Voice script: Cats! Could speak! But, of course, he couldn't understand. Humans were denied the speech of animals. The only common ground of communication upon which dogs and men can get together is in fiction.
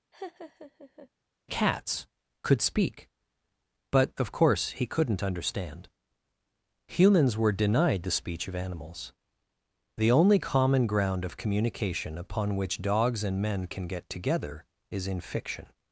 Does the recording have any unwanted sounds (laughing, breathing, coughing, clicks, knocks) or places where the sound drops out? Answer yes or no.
yes